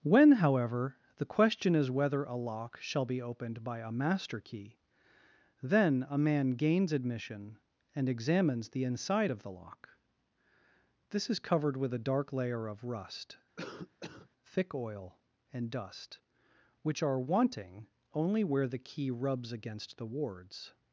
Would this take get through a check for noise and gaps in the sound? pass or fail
fail